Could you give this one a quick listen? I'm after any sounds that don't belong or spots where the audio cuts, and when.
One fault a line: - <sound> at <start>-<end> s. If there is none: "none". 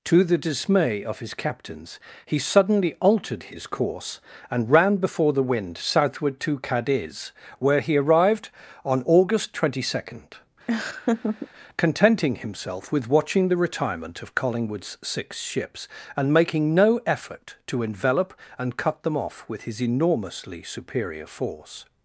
- laugh at 10.7-11.5 s